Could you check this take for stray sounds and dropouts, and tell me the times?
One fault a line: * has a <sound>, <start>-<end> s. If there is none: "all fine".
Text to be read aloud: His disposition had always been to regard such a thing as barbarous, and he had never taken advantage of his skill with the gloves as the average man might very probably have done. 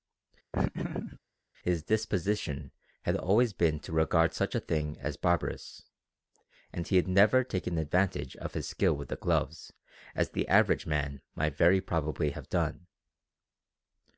* has a laugh, 0.5-1.2 s